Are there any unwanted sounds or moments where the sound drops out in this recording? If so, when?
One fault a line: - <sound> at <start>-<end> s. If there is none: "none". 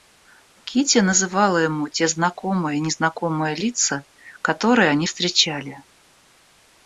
none